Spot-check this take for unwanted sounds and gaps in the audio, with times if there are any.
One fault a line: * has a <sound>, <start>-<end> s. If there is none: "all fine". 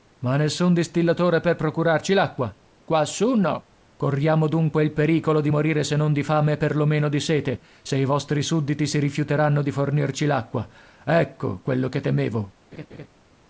* has a laugh, 12.7-13.1 s